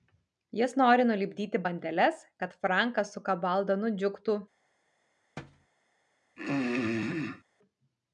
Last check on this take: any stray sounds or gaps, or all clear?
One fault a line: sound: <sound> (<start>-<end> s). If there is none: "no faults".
sound: thud (5.4-5.7 s)
sound: throat clearing (6.4-7.4 s)